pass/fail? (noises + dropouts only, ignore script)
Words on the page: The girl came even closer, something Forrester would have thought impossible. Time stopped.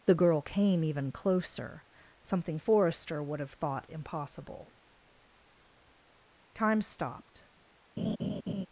fail